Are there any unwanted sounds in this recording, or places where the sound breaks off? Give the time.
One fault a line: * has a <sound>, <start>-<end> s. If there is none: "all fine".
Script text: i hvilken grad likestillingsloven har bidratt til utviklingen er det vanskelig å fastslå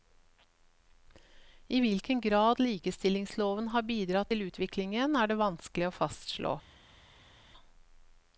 all fine